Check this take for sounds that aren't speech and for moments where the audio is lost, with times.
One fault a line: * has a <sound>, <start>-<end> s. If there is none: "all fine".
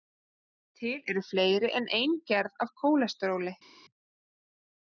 all fine